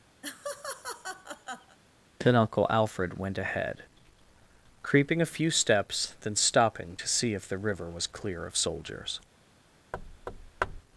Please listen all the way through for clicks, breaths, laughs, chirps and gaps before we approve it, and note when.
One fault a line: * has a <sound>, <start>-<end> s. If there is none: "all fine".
* has a laugh, 0.2-1.8 s
* has a thud, 9.9-10.8 s